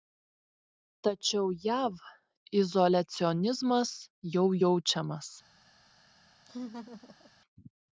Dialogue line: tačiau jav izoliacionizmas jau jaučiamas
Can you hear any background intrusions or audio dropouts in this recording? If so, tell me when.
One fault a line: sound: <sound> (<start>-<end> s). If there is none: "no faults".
sound: laugh (6.5-7.3 s)